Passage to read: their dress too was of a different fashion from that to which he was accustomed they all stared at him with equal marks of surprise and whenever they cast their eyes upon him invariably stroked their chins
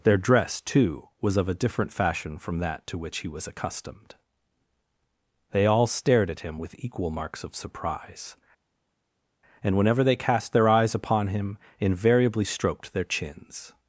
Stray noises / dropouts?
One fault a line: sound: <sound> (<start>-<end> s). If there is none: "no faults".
no faults